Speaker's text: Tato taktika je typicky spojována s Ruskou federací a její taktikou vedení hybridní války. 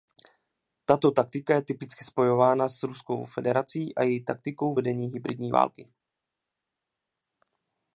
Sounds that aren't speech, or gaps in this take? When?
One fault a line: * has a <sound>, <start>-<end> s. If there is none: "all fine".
all fine